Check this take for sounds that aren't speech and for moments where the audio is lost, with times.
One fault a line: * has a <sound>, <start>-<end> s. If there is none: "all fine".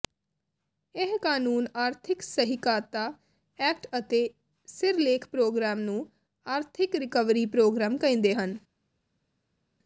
all fine